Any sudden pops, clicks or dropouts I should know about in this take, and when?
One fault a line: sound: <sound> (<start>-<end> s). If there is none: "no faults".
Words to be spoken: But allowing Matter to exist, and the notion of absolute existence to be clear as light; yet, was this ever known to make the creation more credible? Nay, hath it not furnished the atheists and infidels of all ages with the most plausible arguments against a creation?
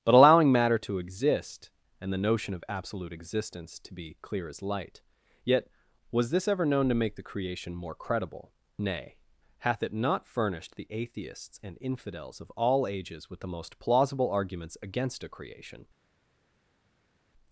no faults